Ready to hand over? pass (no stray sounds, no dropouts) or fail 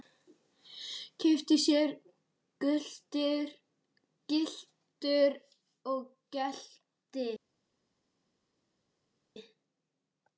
pass